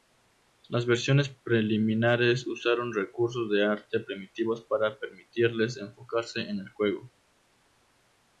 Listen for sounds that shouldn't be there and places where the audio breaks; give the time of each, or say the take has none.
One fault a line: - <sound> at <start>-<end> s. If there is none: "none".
none